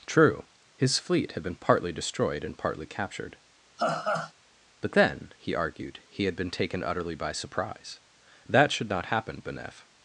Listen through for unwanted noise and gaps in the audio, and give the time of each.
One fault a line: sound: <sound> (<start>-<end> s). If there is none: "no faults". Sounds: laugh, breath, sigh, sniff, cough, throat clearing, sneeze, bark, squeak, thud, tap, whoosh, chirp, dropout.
sound: laugh (3.8-4.3 s)